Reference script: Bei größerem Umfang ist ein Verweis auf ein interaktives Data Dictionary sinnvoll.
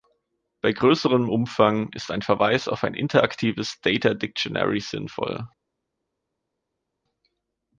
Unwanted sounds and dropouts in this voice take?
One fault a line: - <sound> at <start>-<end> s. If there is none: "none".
none